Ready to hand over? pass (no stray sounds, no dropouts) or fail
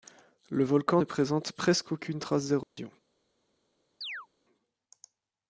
fail